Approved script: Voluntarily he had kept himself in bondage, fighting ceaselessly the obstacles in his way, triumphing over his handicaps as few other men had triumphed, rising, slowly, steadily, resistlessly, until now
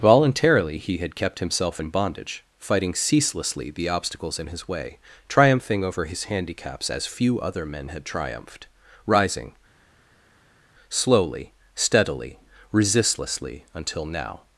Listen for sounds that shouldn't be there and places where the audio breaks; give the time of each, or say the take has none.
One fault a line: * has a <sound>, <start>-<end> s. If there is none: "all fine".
all fine